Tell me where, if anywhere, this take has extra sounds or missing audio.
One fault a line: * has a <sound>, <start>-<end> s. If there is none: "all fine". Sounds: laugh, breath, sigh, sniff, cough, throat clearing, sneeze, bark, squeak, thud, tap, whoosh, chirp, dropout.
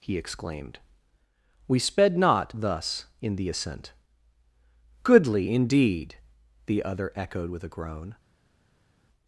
all fine